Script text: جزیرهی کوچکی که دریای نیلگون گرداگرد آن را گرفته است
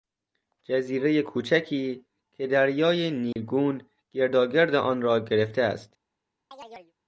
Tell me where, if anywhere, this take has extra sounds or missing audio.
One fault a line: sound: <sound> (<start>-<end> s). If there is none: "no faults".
sound: dropout (3.3-3.4 s)
sound: chirp (6.5-6.9 s)